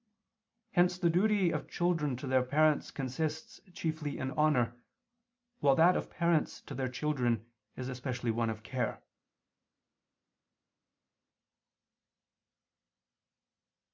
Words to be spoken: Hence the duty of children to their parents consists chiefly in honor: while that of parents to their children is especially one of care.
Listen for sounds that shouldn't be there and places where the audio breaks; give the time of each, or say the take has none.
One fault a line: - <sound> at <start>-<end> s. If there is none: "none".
none